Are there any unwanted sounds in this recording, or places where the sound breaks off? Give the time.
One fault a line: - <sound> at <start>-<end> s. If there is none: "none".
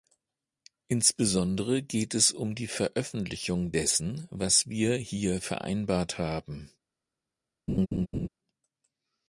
- laugh at 7.7-8.3 s